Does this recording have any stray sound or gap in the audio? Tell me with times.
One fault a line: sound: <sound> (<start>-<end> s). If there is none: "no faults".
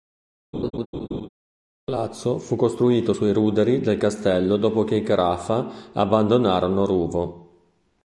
sound: laugh (0.5-1.3 s)